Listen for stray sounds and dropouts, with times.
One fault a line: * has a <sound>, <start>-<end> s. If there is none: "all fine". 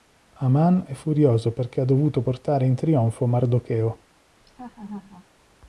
* has a laugh, 4.4-5.3 s